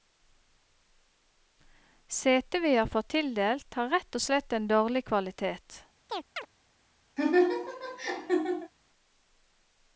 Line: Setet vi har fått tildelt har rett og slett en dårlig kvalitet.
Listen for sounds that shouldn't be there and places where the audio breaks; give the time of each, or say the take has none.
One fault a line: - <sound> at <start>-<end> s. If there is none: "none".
- chirp at 6.1-6.5 s
- laugh at 7.2-8.7 s